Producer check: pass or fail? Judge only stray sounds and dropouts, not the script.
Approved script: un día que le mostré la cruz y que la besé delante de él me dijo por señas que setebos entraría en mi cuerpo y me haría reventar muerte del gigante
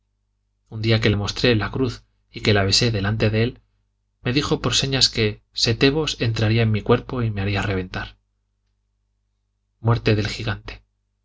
pass